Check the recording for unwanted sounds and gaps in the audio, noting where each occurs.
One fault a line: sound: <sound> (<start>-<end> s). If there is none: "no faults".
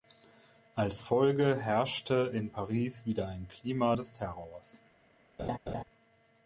sound: laugh (5.4-5.8 s)